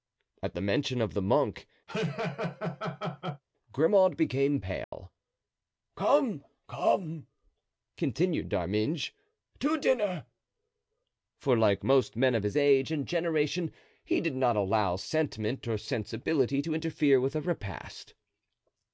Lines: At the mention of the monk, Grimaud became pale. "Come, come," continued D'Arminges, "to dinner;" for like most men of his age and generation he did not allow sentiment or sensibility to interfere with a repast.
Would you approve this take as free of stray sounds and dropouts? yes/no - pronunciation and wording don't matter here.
no